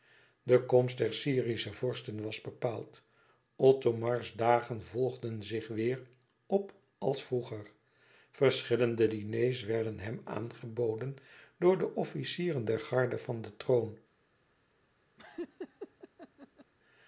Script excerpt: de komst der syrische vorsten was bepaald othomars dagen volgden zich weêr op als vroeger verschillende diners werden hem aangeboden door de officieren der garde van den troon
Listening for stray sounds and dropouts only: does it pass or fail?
fail